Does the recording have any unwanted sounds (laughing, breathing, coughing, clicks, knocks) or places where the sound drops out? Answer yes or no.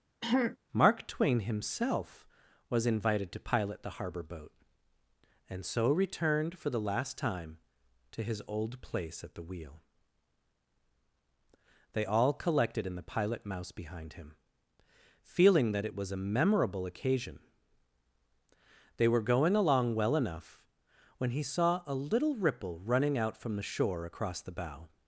yes